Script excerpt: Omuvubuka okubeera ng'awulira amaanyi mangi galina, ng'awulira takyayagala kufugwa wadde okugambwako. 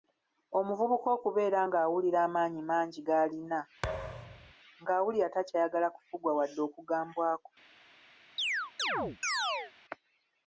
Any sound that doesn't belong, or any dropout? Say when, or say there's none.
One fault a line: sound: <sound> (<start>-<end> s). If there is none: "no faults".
sound: thud (3.8-4.5 s)
sound: chirp (8.4-9.7 s)